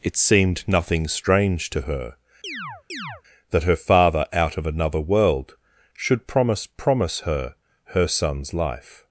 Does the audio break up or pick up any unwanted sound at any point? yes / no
yes